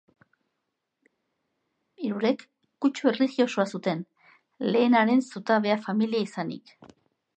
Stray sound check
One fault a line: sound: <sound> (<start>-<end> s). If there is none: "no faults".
no faults